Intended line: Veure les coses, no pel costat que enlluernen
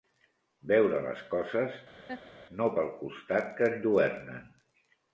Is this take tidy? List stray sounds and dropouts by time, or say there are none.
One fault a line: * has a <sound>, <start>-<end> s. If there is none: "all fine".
* has a laugh, 1.9-2.3 s